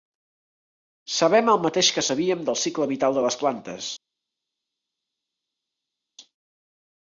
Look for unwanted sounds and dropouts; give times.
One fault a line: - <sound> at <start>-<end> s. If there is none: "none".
none